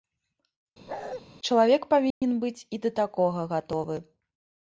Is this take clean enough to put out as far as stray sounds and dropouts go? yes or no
no